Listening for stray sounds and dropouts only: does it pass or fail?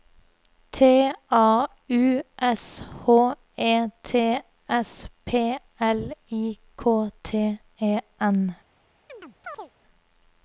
fail